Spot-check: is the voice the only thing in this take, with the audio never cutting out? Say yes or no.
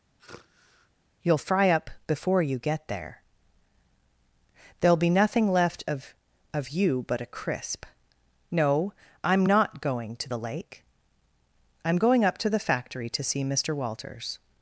no